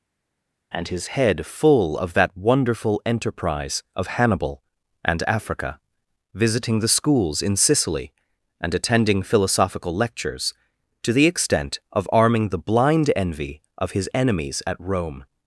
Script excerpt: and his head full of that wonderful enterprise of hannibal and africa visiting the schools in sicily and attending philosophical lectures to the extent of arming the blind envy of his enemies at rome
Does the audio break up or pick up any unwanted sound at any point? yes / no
no